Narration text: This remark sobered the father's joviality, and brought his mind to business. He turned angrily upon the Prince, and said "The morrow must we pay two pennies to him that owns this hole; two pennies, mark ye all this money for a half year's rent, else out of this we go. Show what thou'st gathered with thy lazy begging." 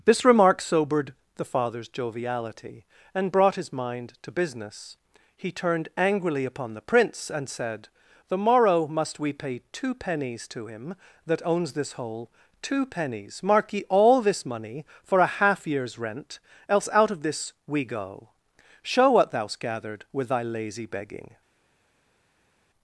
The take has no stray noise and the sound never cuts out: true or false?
true